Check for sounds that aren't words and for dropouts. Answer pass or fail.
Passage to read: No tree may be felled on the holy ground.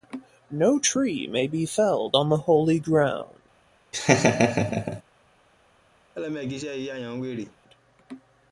fail